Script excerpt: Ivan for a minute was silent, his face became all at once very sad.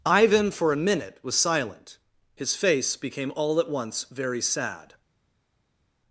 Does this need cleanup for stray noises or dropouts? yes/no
no